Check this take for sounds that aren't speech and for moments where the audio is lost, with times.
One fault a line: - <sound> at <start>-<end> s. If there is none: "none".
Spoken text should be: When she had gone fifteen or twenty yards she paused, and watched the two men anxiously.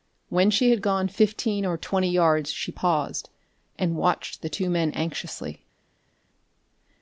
none